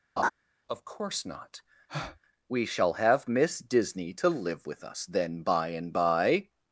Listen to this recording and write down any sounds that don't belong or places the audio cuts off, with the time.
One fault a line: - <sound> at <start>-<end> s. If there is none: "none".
- laugh at 0.2-0.3 s
- breath at 1.9-2.2 s